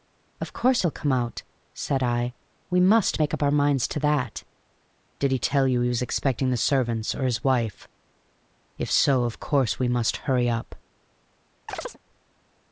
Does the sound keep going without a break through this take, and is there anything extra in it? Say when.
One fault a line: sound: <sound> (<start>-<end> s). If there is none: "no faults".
sound: chirp (11.7-12.0 s)